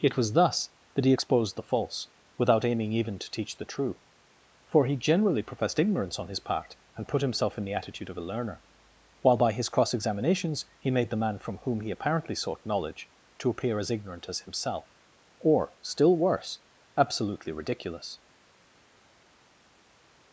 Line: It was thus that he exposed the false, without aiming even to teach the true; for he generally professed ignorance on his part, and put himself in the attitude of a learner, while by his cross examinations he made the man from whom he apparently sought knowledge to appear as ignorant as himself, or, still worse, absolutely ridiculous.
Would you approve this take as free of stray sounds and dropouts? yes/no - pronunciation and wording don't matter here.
yes